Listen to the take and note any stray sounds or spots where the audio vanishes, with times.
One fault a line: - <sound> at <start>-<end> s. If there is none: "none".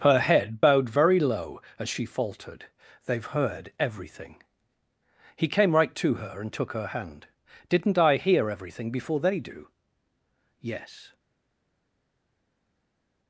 none